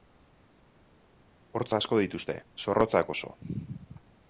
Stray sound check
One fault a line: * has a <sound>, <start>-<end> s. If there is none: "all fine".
all fine